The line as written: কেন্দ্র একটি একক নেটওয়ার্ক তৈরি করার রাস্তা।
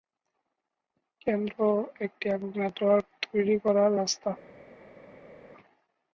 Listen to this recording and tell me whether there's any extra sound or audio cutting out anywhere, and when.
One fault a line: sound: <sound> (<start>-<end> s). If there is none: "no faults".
no faults